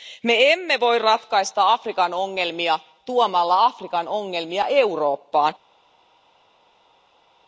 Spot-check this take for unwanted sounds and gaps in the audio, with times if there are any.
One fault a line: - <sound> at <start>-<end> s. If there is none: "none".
none